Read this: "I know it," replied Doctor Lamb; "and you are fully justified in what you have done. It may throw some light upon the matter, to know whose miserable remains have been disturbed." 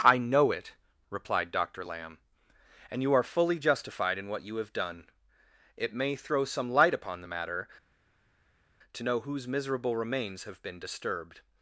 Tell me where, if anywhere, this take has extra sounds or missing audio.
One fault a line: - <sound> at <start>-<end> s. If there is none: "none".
none